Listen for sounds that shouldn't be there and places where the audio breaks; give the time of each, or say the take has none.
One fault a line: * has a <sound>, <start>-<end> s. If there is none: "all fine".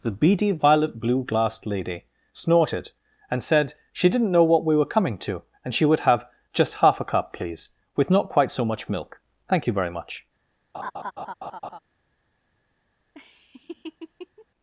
* has a laugh, 10.7-11.8 s
* has a laugh, 13.1-14.5 s